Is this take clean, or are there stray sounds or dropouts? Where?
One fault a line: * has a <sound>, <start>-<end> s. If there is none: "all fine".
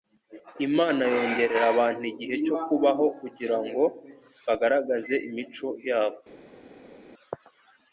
all fine